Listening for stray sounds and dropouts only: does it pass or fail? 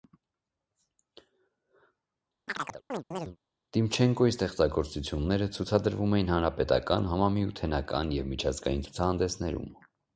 fail